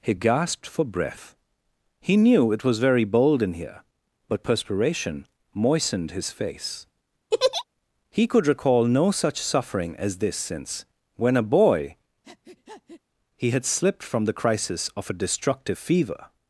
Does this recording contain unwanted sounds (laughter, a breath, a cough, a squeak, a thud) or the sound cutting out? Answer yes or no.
yes